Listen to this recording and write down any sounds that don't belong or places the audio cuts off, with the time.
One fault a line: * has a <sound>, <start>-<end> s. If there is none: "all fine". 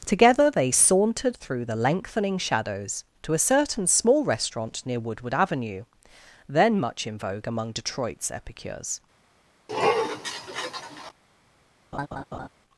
* has a sniff, 9.7-11.1 s
* has a laugh, 11.9-12.5 s